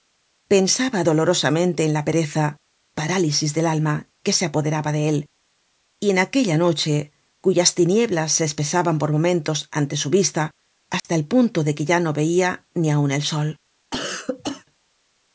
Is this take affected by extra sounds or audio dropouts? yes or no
yes